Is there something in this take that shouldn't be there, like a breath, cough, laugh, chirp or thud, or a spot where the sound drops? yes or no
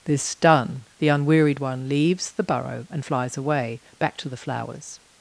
no